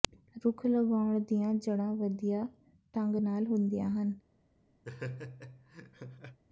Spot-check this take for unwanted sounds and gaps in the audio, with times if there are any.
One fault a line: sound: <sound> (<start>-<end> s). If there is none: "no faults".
sound: laugh (4.8-6.4 s)